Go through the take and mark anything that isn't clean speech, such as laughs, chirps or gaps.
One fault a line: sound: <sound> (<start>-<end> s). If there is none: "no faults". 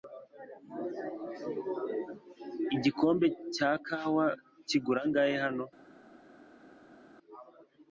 no faults